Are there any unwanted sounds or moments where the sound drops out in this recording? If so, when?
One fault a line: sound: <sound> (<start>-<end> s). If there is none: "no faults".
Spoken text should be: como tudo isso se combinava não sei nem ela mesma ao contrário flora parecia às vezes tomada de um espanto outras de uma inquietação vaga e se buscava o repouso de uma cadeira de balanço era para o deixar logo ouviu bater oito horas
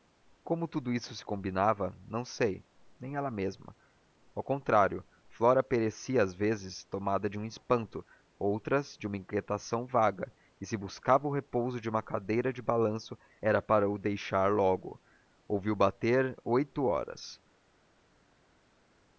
no faults